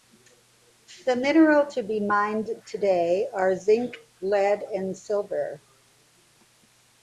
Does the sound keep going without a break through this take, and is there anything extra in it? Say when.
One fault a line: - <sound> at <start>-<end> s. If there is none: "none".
none